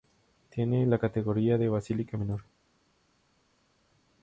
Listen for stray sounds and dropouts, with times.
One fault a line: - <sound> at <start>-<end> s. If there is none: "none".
none